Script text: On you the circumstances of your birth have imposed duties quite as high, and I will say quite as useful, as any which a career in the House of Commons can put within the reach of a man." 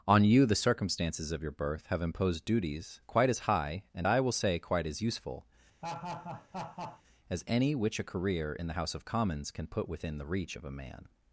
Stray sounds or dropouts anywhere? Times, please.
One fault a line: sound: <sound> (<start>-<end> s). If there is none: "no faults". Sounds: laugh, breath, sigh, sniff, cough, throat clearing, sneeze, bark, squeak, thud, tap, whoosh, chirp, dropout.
sound: laugh (5.8-7.0 s)